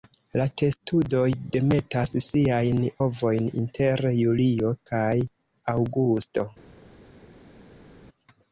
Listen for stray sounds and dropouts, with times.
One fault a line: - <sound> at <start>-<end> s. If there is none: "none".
none